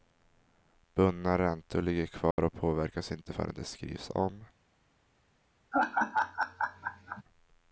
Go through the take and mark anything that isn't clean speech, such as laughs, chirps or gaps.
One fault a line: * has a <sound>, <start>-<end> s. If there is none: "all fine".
* has a dropout, 2.3-2.4 s
* has a laugh, 5.7-7.2 s